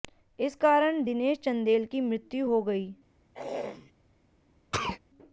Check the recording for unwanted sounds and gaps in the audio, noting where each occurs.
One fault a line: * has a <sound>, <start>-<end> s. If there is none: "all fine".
* has a throat clearing, 3.3-3.9 s
* has a sneeze, 4.7-5.0 s